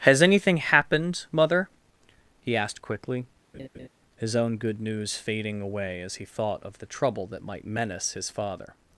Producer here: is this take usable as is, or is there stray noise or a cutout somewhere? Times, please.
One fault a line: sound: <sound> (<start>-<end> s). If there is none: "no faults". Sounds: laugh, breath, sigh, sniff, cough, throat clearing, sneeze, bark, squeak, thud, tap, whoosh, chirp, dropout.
sound: laugh (3.5-3.9 s)